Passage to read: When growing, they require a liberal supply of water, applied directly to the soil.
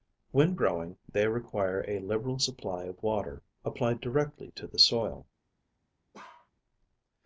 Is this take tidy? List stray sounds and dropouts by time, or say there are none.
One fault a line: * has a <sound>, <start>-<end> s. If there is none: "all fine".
* has a bark, 6.1-6.5 s